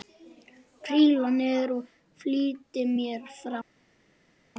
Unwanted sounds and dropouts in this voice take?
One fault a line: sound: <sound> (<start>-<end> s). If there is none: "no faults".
no faults